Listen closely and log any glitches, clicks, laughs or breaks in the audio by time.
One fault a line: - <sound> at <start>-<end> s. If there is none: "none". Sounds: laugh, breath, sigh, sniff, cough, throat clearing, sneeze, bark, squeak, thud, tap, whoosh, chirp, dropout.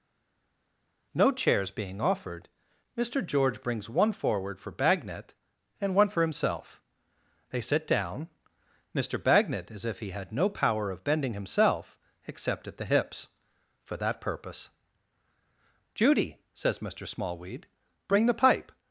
none